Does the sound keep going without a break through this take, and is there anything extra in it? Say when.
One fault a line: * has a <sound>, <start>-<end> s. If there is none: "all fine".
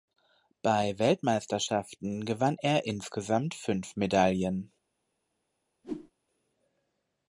* has a whoosh, 5.8-6.1 s